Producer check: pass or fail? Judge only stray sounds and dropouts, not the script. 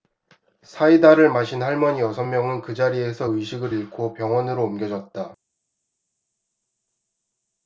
pass